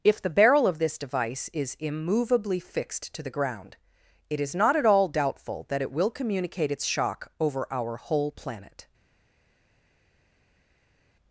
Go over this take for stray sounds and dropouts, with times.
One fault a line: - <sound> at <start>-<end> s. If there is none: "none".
none